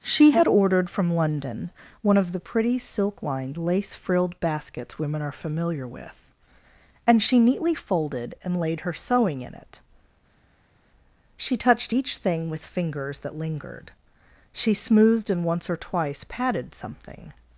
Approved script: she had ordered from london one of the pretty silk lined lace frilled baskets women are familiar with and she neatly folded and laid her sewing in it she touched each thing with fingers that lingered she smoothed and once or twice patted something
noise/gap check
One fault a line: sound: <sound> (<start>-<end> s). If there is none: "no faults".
no faults